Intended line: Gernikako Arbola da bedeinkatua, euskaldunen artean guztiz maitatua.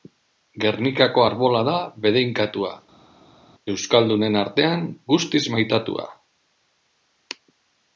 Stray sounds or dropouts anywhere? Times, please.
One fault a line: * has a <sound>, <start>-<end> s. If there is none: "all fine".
all fine